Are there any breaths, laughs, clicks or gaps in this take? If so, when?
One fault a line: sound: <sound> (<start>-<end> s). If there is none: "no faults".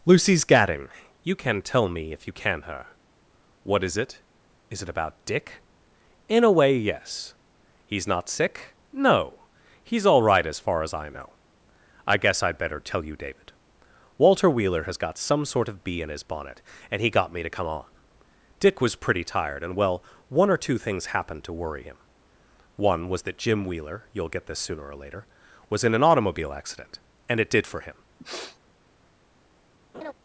sound: sniff (28.2-28.6 s)
sound: laugh (29.9-30.1 s)